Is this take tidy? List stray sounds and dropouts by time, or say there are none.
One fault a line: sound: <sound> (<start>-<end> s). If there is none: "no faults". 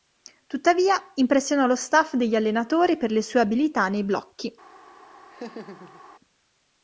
sound: laugh (5.3-6.0 s)